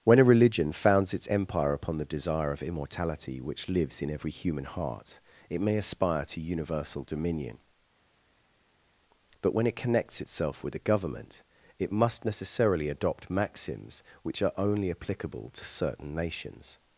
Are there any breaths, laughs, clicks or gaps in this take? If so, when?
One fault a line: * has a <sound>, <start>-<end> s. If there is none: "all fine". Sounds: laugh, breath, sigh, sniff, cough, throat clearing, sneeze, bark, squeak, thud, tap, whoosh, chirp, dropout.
all fine